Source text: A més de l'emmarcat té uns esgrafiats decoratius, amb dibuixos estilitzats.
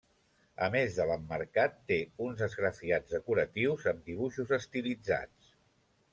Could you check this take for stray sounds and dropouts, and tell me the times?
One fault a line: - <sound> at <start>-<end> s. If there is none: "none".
none